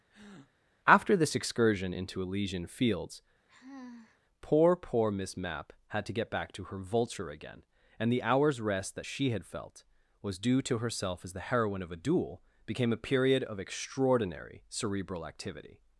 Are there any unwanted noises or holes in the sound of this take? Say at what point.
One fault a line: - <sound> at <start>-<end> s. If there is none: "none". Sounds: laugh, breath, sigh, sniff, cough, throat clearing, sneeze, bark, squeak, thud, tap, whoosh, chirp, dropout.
- breath at 0.1-0.5 s
- sigh at 3.5-4.2 s